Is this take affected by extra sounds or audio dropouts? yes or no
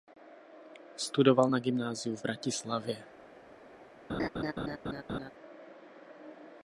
yes